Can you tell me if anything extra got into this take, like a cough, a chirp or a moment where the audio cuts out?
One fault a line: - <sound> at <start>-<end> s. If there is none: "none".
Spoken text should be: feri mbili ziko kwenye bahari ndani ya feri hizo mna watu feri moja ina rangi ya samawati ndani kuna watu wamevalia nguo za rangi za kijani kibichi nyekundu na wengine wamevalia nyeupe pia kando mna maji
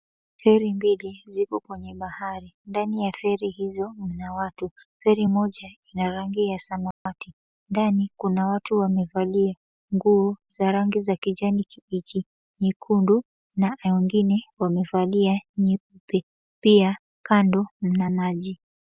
- dropout at 6.9-7.1 s